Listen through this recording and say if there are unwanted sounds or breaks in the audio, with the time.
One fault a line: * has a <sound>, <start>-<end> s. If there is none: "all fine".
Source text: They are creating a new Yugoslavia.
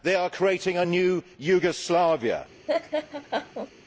* has a laugh, 2.7-3.7 s